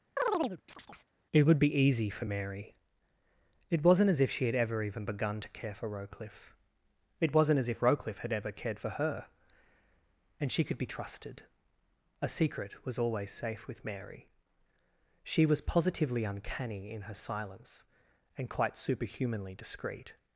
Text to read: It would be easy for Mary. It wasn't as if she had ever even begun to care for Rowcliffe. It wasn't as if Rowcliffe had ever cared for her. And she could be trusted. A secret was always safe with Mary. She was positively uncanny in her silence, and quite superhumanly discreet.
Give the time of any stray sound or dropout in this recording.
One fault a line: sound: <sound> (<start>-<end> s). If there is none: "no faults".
sound: chirp (0.2-1.1 s)